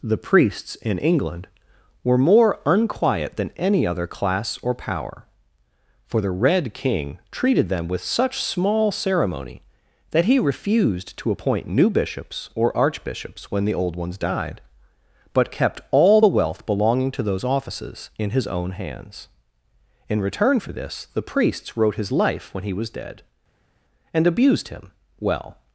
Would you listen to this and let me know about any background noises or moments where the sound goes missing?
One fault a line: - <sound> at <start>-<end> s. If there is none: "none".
none